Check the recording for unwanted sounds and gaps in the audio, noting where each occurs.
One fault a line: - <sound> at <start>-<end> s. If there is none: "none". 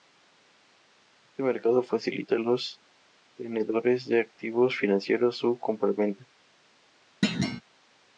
- thud at 7.2-7.6 s